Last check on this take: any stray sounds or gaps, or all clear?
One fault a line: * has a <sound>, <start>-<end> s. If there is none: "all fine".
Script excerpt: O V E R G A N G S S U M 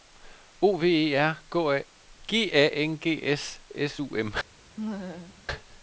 * has a laugh, 4.8-5.4 s